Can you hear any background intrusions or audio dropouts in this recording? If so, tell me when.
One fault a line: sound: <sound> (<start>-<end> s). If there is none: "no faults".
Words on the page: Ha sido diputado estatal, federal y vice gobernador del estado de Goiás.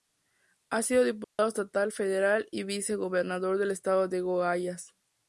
sound: dropout (1.2-1.4 s)